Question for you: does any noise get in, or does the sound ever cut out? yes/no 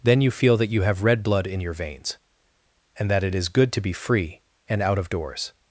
no